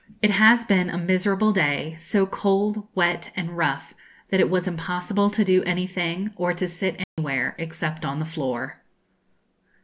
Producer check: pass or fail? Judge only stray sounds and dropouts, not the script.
fail